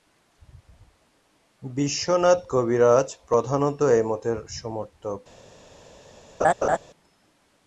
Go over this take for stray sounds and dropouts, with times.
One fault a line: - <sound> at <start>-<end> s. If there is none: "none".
- laugh at 6.4-6.8 s